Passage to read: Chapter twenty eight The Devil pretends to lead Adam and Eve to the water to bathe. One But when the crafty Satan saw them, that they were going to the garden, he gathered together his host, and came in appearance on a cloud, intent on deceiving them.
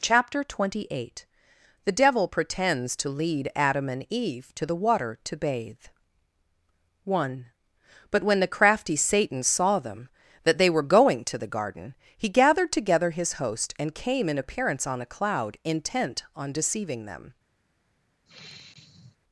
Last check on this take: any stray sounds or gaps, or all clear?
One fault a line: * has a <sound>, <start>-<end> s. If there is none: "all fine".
* has a sigh, 18.3-19.2 s